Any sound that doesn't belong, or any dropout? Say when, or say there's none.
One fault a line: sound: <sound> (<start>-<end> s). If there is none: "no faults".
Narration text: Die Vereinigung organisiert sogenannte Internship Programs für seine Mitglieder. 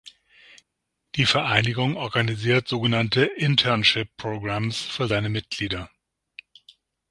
no faults